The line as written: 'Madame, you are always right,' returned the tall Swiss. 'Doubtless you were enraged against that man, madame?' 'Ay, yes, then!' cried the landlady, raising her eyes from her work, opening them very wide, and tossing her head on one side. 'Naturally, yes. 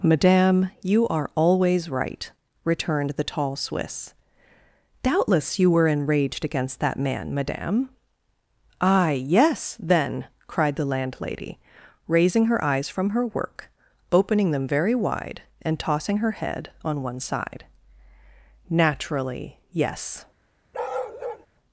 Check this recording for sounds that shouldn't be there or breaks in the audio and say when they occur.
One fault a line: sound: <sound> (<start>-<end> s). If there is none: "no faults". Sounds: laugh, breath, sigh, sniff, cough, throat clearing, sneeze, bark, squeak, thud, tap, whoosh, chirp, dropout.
sound: bark (20.7-21.5 s)